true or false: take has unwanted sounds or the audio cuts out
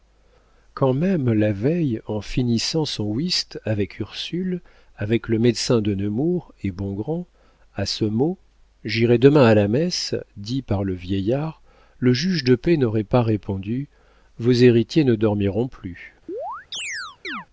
true